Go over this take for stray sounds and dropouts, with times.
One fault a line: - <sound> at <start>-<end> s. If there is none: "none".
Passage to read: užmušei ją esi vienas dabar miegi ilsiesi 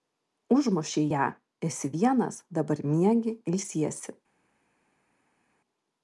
none